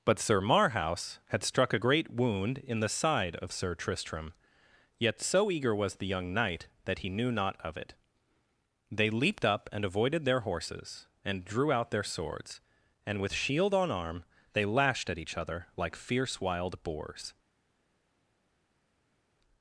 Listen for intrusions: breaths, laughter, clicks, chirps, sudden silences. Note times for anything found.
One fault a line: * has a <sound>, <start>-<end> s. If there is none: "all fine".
all fine